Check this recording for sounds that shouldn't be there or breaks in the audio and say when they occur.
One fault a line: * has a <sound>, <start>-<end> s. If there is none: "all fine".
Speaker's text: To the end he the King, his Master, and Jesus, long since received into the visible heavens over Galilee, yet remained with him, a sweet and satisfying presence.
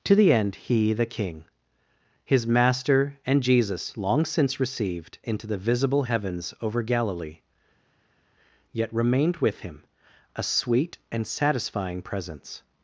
all fine